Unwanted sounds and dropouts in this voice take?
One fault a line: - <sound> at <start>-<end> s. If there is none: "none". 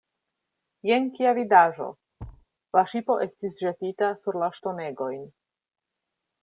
- thud at 2.2-2.5 s